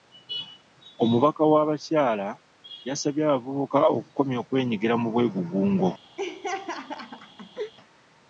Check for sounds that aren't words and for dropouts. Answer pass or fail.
fail